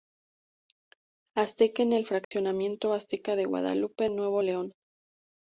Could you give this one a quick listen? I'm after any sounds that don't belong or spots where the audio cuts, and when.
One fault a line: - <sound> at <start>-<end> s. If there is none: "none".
- dropout at 2.2-2.3 s